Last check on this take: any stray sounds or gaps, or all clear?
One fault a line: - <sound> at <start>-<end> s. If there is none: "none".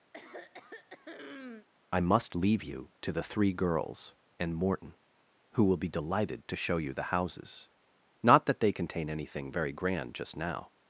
- throat clearing at 0.1-1.7 s